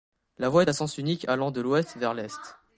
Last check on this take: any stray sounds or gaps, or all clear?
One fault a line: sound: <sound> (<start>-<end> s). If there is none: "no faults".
no faults